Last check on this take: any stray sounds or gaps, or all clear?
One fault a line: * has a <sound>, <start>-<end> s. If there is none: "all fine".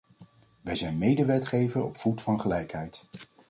all fine